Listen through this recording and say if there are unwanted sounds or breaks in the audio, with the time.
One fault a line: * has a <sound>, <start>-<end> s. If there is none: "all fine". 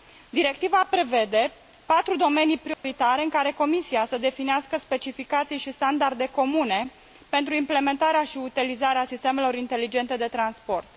* has a dropout, 2.7-2.8 s